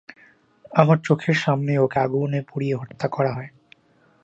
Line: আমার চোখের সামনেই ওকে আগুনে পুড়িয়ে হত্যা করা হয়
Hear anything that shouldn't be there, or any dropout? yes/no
no